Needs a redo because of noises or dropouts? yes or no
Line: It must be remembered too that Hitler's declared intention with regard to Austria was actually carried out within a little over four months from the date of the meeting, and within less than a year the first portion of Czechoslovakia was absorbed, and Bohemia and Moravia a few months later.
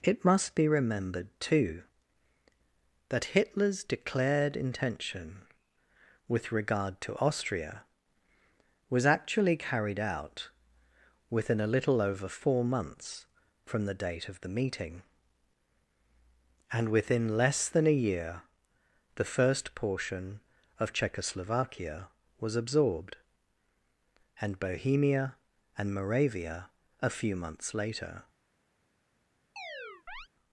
yes